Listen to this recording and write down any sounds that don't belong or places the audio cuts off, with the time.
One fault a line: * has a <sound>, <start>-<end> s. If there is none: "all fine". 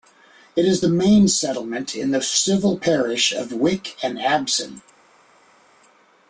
all fine